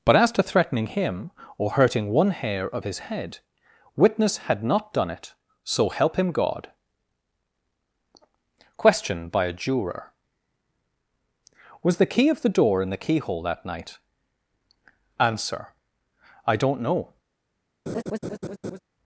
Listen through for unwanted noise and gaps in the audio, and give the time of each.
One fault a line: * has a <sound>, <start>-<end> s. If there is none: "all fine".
* has a laugh, 17.9-18.8 s